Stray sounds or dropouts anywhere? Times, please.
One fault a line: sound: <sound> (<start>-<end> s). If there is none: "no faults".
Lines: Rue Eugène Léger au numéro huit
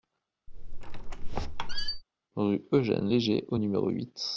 sound: squeak (0.5-2.0 s)